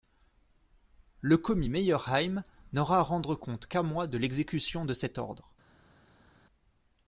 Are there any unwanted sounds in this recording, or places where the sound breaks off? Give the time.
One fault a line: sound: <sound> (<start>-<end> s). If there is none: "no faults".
no faults